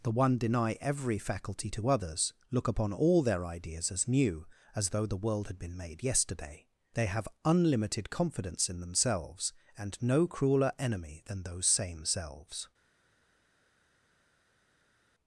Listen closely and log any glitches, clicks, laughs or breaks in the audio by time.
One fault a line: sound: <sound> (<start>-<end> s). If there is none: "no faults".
no faults